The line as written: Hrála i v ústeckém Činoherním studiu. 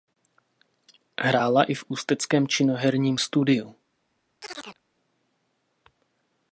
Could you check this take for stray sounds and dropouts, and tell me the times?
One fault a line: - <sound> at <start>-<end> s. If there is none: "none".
- chirp at 4.4-4.8 s